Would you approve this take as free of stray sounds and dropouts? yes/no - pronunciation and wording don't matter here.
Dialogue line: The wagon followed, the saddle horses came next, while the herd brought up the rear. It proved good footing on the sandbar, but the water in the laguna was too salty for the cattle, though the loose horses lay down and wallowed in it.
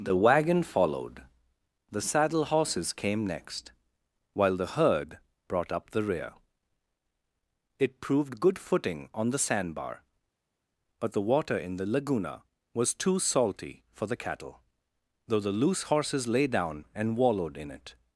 yes